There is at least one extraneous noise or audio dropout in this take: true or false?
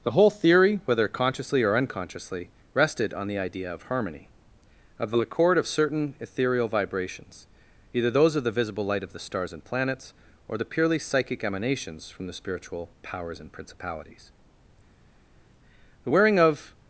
false